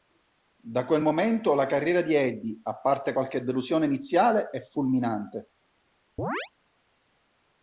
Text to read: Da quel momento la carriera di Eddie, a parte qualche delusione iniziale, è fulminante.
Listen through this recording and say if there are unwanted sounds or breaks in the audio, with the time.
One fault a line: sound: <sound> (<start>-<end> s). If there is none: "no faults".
sound: chirp (6.2-6.5 s)